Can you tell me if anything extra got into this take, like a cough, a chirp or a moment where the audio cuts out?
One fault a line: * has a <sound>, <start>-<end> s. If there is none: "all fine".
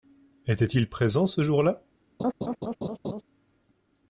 * has a laugh, 2.2-3.2 s